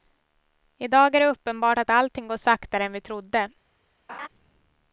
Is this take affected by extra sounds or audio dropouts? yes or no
yes